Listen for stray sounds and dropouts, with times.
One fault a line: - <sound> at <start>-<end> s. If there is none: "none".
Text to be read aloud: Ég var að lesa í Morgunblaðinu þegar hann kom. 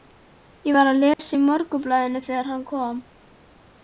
- dropout at 1.1-1.2 s